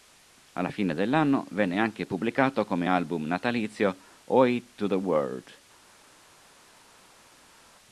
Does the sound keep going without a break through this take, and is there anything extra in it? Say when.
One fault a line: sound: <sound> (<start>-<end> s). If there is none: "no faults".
no faults